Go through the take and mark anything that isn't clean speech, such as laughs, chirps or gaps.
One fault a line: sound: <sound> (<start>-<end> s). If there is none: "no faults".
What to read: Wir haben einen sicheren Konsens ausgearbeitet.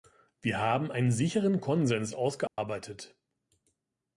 sound: dropout (2.5-2.6 s)